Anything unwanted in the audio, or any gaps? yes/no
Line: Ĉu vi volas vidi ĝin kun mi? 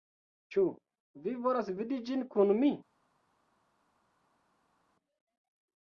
no